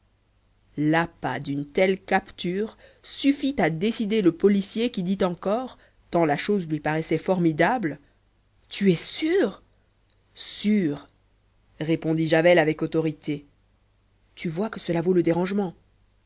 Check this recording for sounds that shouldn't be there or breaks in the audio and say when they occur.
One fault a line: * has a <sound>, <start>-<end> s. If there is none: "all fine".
all fine